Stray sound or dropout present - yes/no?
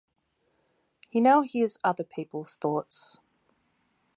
no